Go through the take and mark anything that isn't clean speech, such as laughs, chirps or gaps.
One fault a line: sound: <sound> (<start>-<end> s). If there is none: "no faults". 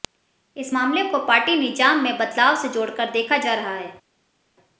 no faults